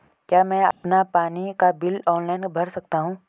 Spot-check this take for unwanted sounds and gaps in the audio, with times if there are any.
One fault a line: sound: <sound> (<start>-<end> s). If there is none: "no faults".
sound: dropout (0.7-0.8 s)